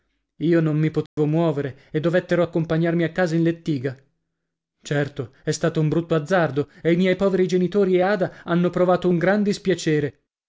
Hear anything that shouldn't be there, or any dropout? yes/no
yes